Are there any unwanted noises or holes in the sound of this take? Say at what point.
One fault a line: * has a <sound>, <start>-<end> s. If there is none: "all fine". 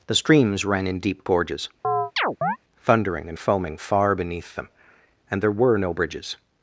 * has a chirp, 1.8-2.6 s